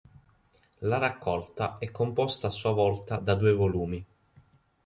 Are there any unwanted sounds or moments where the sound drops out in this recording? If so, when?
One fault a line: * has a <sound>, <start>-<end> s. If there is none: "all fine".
all fine